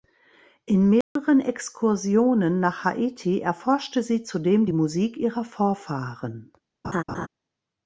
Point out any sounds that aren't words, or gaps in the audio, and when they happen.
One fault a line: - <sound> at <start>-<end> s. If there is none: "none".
- dropout at 1.0-1.2 s
- laugh at 6.8-7.3 s